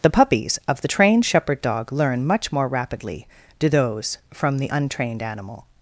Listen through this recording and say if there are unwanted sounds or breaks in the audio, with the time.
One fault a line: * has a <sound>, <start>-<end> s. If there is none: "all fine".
all fine